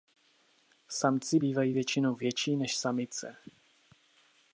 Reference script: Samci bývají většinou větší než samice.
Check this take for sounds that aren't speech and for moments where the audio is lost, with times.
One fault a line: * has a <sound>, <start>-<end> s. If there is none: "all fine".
all fine